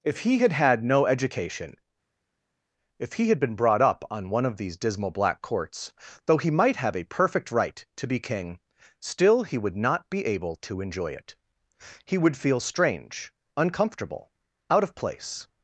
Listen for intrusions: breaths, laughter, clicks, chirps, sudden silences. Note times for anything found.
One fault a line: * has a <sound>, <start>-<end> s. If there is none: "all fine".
all fine